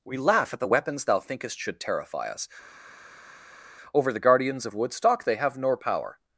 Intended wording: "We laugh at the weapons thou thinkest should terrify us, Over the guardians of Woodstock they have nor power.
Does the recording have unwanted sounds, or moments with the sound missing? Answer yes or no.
no